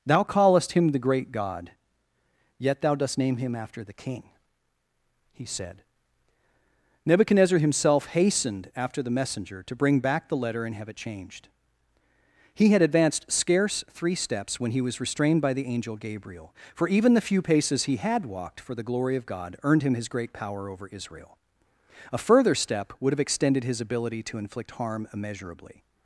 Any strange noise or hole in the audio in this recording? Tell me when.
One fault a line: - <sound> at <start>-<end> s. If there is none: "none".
none